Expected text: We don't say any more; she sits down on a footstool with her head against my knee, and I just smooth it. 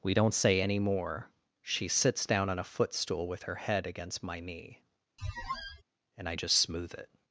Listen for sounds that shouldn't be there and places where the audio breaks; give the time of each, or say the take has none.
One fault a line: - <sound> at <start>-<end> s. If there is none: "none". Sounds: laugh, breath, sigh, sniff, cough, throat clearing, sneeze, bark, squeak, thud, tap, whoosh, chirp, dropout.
- squeak at 5.2-5.8 s